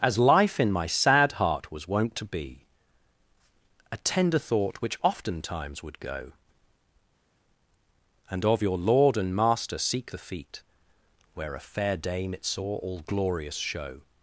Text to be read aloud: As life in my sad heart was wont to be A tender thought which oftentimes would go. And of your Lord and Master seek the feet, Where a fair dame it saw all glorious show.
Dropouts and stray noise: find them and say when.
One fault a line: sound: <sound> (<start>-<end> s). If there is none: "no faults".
no faults